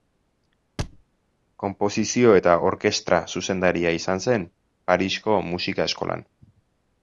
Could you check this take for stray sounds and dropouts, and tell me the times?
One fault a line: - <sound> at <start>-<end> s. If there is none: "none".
- thud at 0.8-1.0 s